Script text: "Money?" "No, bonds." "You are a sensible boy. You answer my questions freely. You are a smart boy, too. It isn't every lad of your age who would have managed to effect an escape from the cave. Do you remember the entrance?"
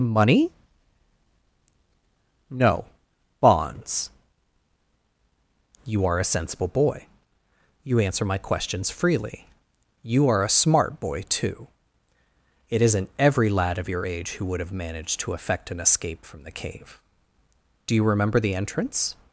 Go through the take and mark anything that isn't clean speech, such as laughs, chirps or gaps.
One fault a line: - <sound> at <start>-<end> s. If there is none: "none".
none